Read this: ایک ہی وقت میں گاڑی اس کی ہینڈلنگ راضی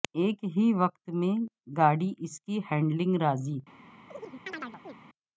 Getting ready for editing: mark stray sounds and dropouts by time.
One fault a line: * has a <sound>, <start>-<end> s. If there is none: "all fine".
* has a chirp, 4.1-4.9 s